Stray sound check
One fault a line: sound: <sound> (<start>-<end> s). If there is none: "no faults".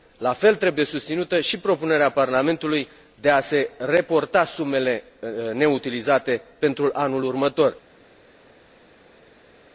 no faults